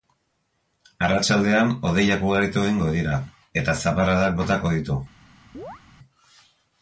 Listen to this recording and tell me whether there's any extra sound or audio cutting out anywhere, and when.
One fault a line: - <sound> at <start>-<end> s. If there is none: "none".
- chirp at 5.5-5.8 s